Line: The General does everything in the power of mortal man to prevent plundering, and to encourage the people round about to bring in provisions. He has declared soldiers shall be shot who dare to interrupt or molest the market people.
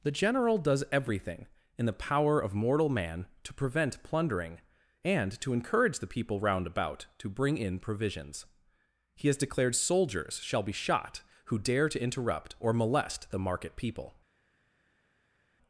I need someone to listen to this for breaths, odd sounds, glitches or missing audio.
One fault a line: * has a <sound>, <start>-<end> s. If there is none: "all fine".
all fine